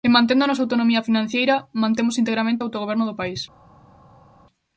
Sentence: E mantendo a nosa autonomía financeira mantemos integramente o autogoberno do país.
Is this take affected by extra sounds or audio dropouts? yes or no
no